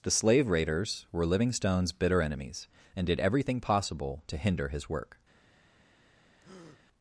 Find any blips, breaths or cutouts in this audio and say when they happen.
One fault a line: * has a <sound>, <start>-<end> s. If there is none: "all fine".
* has a breath, 6.4-6.8 s